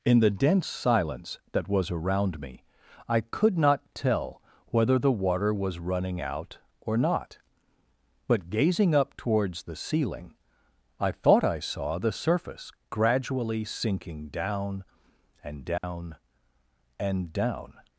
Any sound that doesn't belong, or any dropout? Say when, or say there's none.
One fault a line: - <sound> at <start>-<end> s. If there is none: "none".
- dropout at 15.8-15.8 s